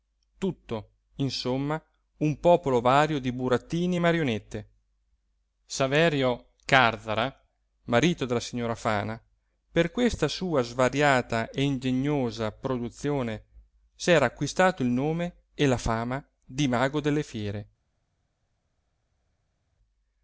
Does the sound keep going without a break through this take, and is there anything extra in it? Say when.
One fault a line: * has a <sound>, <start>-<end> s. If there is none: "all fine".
all fine